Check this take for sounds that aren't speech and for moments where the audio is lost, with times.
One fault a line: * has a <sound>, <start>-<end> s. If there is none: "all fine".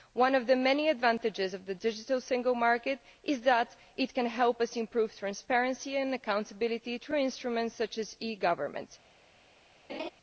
* has a laugh, 9.9-10.1 s